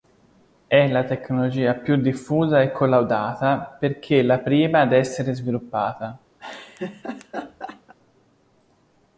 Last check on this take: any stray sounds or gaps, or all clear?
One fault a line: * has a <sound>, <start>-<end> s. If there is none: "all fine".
* has a laugh, 6.4-7.9 s